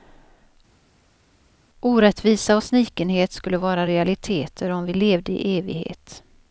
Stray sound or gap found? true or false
false